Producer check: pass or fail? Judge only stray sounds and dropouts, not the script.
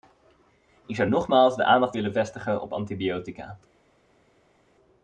pass